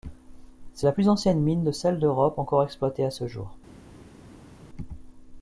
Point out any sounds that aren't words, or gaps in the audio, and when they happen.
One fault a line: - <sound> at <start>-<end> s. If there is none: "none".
none